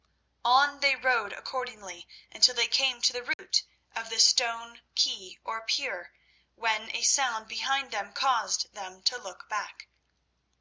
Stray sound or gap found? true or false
true